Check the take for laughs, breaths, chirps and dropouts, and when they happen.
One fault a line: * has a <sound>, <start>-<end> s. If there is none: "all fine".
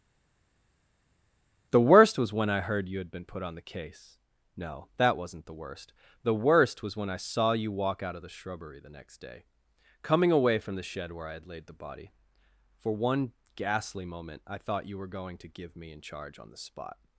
all fine